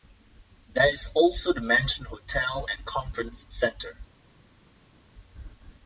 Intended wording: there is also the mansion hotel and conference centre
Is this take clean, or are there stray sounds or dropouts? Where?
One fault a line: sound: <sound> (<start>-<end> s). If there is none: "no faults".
no faults